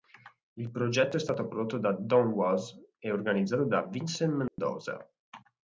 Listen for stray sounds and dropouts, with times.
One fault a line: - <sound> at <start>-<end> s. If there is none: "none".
- dropout at 4.5-4.6 s